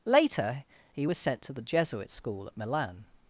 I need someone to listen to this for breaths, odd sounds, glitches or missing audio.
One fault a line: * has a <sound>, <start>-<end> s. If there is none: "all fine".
all fine